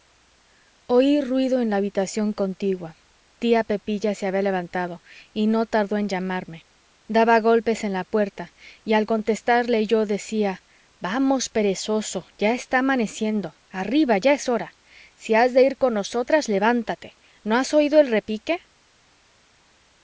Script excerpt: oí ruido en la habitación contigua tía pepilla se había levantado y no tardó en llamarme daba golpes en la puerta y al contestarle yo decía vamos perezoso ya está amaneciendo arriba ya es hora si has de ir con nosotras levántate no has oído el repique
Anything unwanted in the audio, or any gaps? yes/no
no